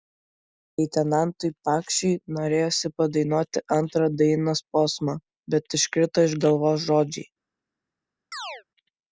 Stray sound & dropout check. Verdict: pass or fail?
fail